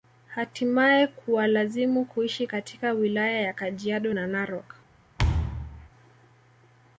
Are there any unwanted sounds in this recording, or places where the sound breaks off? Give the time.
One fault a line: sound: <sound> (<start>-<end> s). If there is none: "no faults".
sound: thud (5.2-5.9 s)